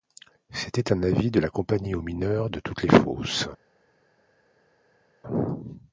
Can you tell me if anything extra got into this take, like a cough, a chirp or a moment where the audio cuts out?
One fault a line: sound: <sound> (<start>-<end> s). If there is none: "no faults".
no faults